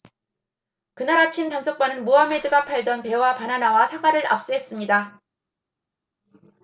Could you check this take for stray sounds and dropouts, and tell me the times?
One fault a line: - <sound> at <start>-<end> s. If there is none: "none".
none